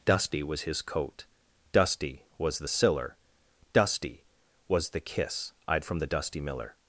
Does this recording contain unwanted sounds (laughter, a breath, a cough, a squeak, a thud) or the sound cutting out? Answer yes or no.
no